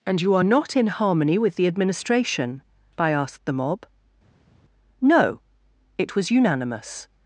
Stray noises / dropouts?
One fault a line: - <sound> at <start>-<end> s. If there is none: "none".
none